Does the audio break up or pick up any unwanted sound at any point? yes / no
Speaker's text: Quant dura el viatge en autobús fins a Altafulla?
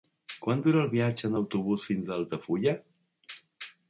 no